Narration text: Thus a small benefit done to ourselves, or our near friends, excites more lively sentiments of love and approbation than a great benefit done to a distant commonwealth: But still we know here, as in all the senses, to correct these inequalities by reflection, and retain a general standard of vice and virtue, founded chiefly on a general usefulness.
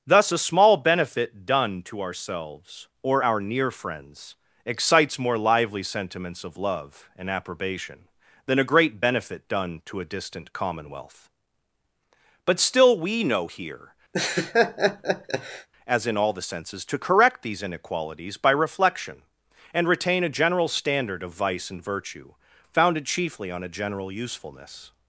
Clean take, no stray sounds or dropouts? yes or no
no